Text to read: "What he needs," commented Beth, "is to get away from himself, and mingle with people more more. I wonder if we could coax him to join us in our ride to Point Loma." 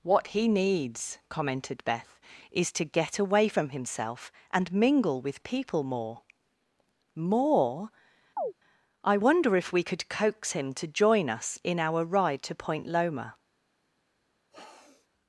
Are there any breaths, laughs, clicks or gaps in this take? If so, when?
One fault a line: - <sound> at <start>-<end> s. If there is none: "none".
- chirp at 8.4-8.5 s
- sniff at 14.5-15.1 s